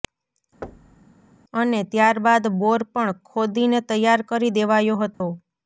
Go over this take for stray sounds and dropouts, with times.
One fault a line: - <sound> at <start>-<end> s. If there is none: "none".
- thud at 0.6-1.1 s
- dropout at 5.1-5.2 s